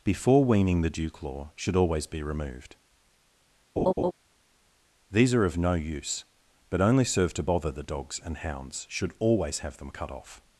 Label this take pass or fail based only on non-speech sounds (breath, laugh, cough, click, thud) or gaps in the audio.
fail